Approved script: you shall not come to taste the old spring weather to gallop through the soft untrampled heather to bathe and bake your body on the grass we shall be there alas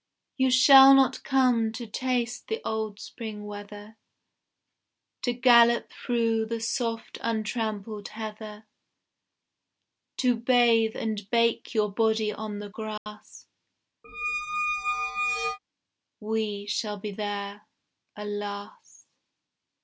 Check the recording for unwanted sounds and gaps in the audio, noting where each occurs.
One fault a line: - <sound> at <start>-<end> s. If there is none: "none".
- dropout at 13.0-13.1 s
- squeak at 14.0-15.6 s